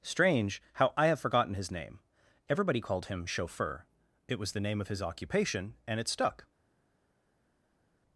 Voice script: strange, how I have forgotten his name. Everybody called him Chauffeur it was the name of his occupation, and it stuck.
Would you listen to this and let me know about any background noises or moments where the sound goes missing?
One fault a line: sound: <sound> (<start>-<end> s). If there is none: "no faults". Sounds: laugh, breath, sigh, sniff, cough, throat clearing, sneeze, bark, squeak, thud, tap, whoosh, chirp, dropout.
no faults